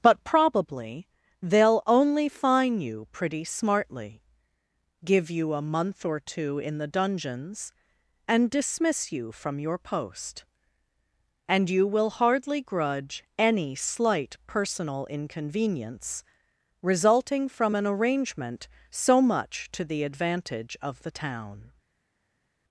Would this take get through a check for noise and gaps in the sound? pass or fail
pass